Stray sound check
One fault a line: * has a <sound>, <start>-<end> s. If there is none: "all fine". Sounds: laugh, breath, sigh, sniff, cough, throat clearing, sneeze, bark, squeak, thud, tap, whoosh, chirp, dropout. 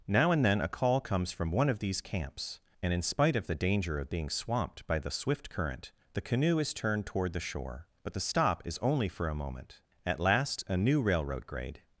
all fine